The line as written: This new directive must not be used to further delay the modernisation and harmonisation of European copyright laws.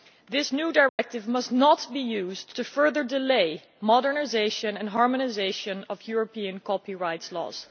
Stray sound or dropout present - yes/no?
yes